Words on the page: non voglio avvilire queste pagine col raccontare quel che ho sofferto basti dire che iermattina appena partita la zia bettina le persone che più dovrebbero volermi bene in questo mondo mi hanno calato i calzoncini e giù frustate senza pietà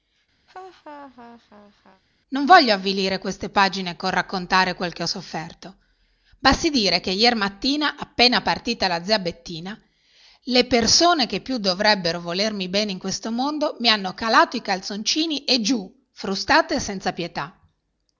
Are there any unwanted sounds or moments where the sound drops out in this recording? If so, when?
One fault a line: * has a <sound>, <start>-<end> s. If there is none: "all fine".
* has a laugh, 0.5-2.0 s